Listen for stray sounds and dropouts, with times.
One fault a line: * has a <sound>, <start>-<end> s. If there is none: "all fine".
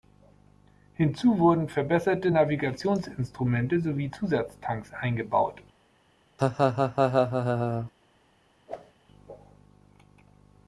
* has a laugh, 6.4-7.9 s
* has a whoosh, 8.7-8.9 s